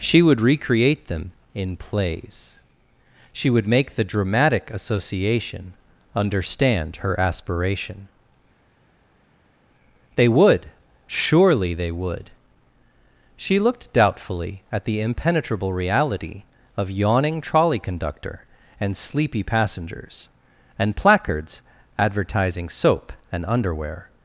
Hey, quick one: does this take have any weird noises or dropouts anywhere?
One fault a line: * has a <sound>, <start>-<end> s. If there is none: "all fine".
all fine